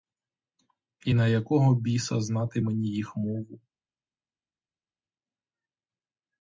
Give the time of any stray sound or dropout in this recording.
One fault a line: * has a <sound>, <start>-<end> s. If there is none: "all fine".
all fine